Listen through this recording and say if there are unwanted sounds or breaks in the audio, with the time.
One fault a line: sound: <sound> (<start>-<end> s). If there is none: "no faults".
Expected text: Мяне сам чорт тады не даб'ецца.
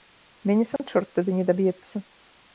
sound: dropout (0.8-0.8 s)